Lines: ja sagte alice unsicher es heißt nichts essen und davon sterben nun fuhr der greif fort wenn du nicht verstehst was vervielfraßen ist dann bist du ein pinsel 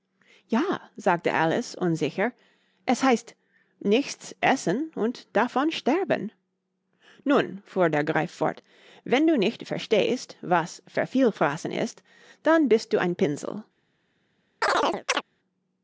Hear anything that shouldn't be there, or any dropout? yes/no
yes